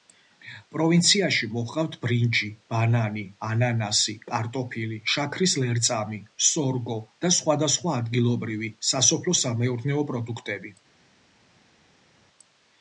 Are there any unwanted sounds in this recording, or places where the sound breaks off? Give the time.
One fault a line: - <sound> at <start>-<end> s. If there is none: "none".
none